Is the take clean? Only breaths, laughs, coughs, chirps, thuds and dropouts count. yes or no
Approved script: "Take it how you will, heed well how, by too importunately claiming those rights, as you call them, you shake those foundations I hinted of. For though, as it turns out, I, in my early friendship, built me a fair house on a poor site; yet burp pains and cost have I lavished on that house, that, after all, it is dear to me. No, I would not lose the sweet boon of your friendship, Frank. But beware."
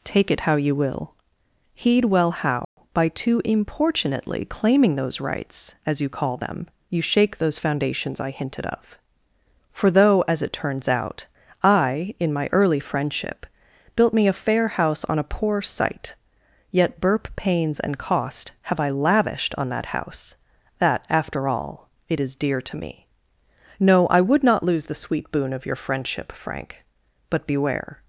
no